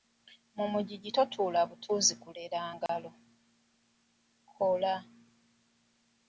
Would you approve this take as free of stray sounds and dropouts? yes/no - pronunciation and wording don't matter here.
no